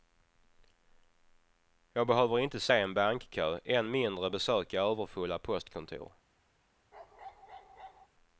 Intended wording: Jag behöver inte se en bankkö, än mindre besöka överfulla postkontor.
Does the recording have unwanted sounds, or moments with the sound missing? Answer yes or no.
yes